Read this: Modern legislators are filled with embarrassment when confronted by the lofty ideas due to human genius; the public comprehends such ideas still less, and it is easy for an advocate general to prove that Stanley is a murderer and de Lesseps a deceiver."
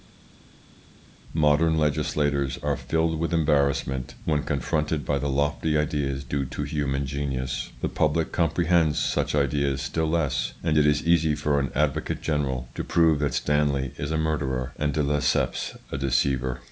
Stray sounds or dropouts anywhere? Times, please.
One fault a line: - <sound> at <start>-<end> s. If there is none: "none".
none